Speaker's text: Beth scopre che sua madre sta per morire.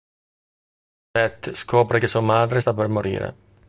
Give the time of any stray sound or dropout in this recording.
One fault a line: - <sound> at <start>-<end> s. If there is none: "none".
none